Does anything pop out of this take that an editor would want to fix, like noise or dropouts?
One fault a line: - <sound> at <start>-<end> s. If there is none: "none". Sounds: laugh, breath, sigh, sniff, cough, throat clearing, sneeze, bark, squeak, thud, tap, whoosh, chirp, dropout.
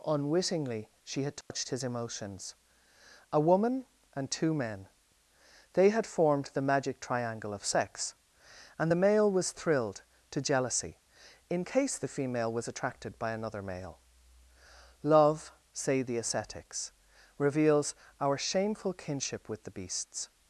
- dropout at 1.4-1.5 s